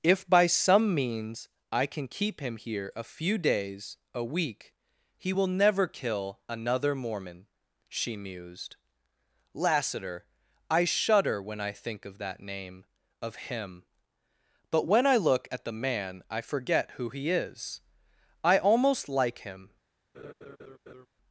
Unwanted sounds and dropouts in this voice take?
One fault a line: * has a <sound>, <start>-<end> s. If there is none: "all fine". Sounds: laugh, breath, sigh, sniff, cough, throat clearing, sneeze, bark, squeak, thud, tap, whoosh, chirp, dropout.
* has a laugh, 20.1-21.1 s